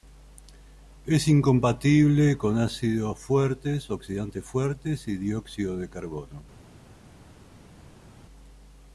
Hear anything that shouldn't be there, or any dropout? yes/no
no